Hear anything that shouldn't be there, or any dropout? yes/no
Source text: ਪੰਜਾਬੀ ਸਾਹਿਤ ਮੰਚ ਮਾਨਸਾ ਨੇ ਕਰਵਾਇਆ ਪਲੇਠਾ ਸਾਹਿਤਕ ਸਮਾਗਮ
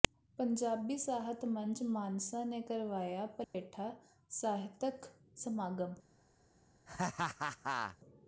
yes